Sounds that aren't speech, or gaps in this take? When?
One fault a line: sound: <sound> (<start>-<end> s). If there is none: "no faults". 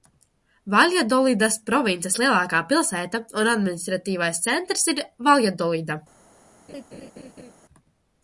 sound: laugh (6.7-7.5 s)